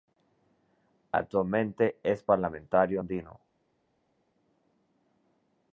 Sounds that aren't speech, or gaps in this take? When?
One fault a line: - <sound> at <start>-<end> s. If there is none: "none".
none